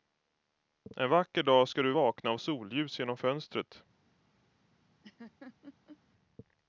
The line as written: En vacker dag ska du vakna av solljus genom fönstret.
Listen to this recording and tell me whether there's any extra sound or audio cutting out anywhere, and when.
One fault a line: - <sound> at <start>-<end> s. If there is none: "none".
- laugh at 5.0-6.0 s